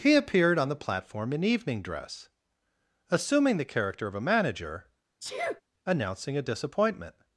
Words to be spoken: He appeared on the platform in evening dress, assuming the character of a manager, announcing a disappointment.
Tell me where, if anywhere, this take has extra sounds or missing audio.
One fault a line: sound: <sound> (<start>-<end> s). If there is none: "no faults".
sound: sneeze (5.2-5.6 s)